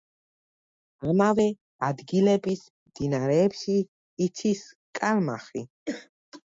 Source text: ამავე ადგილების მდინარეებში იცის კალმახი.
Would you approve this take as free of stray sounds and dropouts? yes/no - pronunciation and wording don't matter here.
no